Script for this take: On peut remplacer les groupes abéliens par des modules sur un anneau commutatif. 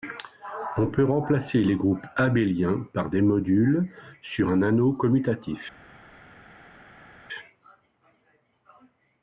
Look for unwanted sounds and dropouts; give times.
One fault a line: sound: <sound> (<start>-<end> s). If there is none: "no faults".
no faults